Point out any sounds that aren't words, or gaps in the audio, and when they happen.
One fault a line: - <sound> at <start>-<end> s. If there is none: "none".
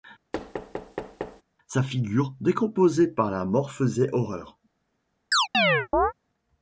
- thud at 0.3-1.4 s
- chirp at 5.3-6.1 s